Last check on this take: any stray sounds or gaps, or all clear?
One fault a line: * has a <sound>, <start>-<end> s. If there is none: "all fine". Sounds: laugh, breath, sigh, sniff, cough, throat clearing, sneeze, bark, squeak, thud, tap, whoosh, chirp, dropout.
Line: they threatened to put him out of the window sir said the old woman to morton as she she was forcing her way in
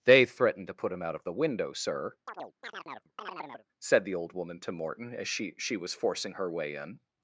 * has a chirp, 2.3-3.7 s